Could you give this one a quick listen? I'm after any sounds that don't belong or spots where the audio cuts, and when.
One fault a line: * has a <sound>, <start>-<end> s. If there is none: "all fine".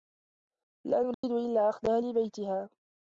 * has a dropout, 1.1-1.2 s